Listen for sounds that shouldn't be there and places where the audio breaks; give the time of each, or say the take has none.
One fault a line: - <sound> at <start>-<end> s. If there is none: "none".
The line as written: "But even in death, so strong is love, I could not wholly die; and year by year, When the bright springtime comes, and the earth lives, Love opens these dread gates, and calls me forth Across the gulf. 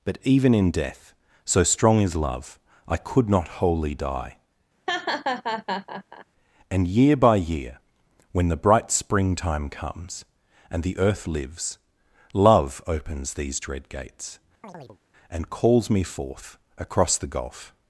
- laugh at 4.9-6.3 s
- chirp at 14.6-15.0 s